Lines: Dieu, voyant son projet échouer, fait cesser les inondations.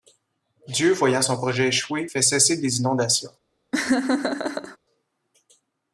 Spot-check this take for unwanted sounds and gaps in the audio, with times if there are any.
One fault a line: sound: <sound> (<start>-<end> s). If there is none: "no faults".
sound: laugh (3.7-4.8 s)